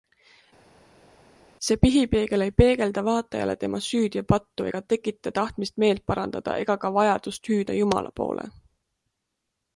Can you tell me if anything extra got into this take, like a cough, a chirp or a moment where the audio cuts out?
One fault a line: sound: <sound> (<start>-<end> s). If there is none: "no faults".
no faults